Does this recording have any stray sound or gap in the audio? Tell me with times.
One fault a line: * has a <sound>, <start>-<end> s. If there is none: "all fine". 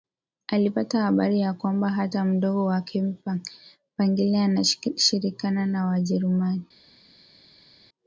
all fine